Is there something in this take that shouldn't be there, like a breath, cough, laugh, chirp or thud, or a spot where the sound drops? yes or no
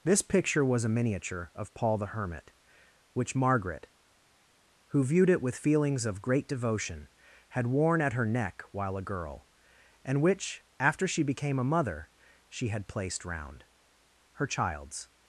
no